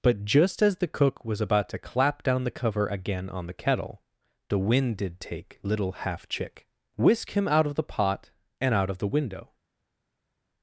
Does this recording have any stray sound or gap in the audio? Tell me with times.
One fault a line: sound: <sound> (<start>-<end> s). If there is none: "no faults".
no faults